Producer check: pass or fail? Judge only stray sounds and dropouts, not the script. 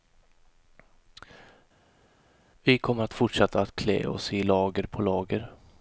pass